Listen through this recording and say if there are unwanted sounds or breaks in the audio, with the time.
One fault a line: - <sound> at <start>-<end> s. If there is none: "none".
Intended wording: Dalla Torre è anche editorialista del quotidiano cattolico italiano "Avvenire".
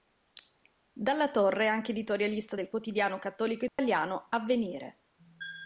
- dropout at 3.7-3.8 s